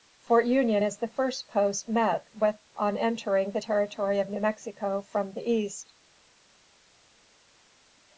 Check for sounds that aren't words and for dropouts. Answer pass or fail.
pass